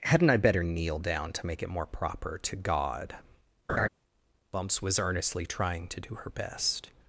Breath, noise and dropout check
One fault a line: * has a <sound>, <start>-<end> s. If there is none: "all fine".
* has a laugh, 3.7-3.9 s